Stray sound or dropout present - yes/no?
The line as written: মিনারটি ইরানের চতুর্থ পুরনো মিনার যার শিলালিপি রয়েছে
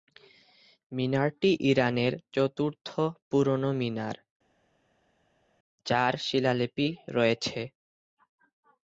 no